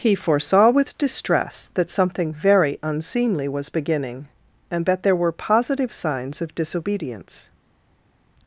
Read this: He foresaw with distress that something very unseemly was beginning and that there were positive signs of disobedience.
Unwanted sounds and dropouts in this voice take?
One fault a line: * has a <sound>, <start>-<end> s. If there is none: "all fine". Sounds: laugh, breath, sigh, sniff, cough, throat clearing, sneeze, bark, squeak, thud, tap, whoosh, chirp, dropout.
all fine